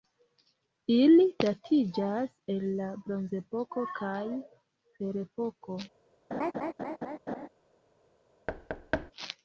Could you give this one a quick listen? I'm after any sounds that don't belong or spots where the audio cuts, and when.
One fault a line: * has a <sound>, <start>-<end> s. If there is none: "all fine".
* has a laugh, 6.3-7.5 s
* has a thud, 8.5-9.1 s